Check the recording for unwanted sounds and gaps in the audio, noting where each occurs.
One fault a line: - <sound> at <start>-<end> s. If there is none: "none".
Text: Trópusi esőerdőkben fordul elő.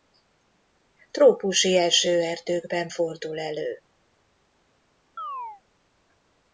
- chirp at 5.2-5.6 s